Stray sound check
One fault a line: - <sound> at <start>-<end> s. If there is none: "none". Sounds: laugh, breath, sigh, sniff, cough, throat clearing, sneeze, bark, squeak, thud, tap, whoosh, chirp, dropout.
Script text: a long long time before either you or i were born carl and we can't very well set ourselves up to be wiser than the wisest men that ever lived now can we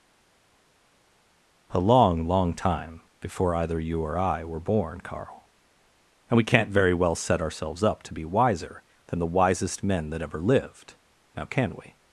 none